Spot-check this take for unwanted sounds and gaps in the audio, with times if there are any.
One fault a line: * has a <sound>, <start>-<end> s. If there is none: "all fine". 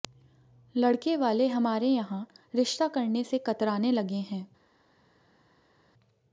all fine